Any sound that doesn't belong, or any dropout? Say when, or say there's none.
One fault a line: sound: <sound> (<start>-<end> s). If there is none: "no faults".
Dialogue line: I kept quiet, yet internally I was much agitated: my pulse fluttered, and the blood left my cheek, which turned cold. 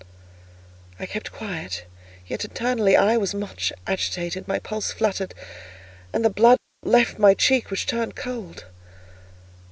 no faults